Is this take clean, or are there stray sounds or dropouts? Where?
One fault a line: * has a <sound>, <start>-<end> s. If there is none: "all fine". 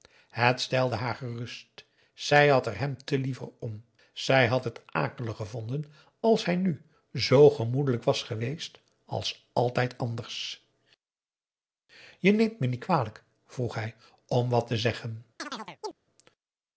* has a chirp, 15.4-15.9 s